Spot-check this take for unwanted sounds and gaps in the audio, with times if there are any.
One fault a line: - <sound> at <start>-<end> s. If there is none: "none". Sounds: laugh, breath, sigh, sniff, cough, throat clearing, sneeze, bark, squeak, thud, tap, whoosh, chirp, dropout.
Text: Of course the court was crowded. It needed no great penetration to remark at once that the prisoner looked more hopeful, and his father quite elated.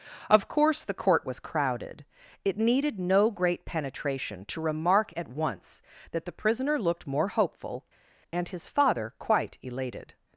none